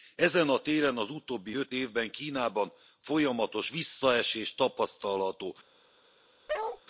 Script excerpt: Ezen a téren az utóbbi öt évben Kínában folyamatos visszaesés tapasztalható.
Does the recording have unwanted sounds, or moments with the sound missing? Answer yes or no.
yes